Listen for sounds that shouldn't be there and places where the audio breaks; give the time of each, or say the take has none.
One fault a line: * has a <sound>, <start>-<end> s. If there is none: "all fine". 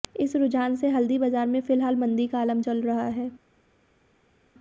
all fine